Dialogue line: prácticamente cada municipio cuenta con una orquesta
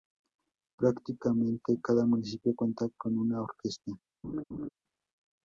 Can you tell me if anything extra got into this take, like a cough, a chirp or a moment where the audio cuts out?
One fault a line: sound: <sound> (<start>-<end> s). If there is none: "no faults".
sound: laugh (4.2-4.7 s)